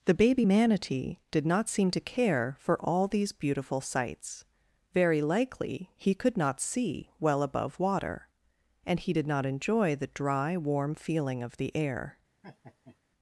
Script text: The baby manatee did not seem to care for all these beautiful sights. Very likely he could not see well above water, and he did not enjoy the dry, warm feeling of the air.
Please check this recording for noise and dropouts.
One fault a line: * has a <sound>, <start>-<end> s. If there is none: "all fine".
* has a laugh, 12.4-13.0 s